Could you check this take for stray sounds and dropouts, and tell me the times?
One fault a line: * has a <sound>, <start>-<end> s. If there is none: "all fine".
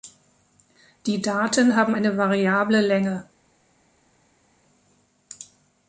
all fine